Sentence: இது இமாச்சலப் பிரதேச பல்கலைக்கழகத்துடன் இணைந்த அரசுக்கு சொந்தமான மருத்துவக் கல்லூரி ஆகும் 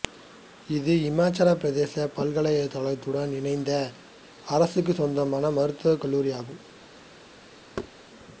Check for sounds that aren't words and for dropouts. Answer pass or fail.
fail